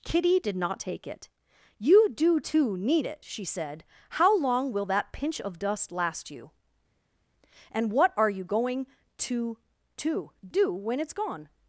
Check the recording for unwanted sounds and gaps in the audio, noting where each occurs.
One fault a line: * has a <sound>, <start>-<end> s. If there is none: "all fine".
all fine